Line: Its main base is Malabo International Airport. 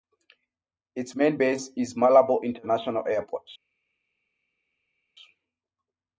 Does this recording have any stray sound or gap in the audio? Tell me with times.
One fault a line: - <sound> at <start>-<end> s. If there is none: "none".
none